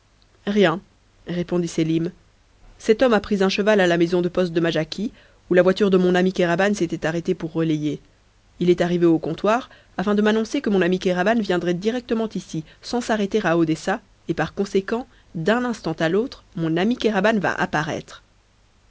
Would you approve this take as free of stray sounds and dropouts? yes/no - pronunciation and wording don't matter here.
yes